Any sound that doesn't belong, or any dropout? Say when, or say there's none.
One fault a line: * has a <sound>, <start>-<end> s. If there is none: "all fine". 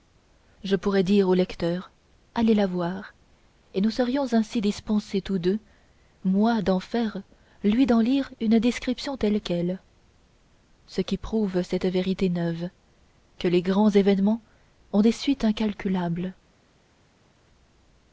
all fine